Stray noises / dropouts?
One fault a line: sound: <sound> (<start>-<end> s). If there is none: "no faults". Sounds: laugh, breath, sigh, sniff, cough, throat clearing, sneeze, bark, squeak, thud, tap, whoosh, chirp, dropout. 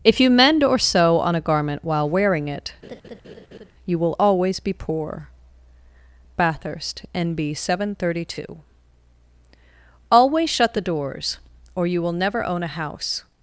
sound: laugh (2.8-3.7 s)